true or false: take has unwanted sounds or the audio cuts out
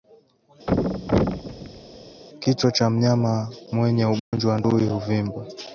true